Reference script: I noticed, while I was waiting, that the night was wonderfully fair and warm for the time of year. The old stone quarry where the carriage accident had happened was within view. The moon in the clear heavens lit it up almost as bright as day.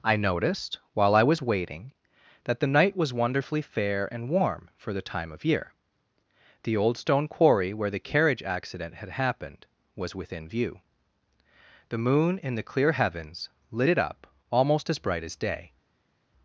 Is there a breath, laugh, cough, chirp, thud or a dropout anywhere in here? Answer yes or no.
no